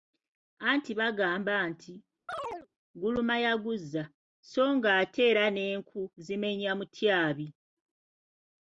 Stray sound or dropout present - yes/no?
yes